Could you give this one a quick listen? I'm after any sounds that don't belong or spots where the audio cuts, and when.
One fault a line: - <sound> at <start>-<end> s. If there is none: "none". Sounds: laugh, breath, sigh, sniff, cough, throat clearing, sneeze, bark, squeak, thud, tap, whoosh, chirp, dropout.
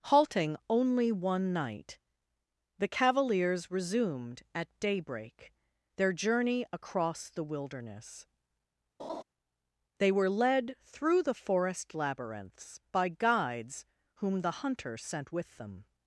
- laugh at 9.0-9.2 s